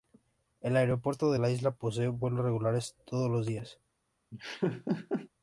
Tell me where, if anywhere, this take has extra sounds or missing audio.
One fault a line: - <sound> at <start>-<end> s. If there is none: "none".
- laugh at 4.3-5.3 s